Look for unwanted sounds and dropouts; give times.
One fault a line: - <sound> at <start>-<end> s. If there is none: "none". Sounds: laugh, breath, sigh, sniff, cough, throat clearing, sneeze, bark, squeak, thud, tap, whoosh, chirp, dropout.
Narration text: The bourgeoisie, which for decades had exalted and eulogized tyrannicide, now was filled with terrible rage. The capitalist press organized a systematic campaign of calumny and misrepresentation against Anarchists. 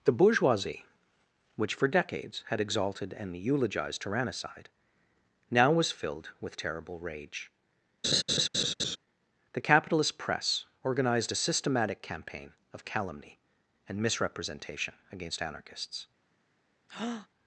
- laugh at 8.0-9.0 s
- breath at 16.9-17.3 s